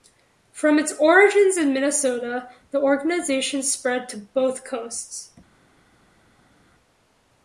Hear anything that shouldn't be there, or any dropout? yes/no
no